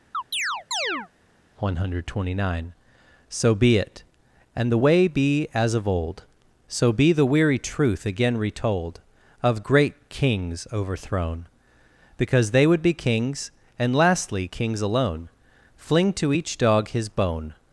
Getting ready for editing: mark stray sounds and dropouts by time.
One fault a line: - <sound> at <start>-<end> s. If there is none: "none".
- chirp at 0.1-1.1 s